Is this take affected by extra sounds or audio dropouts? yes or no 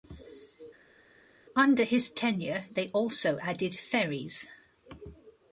no